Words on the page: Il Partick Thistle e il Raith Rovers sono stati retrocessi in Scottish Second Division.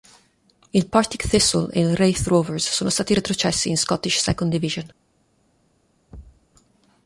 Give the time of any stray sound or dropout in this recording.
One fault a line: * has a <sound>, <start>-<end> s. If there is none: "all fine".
* has a thud, 6.1-6.5 s